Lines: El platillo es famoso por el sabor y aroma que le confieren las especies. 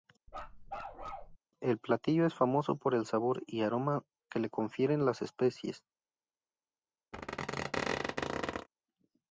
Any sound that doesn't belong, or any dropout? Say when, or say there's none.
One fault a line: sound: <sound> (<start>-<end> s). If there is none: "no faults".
sound: bark (0.3-1.4 s)
sound: squeak (7.1-8.7 s)